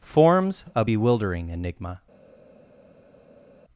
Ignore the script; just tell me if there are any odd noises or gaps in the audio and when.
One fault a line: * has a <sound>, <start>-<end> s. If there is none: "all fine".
all fine